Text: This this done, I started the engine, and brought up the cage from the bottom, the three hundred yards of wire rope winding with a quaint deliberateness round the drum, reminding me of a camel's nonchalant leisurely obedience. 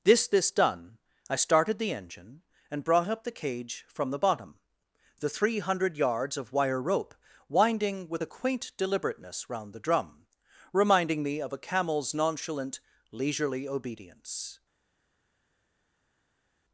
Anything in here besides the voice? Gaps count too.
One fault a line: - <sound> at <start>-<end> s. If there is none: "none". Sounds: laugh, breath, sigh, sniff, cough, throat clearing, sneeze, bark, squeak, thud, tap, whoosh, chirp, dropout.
none